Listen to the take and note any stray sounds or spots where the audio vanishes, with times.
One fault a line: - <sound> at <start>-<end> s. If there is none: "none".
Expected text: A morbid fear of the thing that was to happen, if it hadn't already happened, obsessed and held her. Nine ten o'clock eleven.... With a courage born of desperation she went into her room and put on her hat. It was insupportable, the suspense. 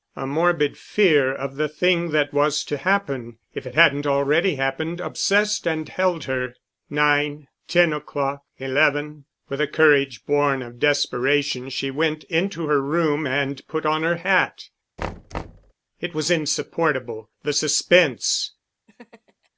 - thud at 15.0-15.7 s
- laugh at 18.9-19.5 s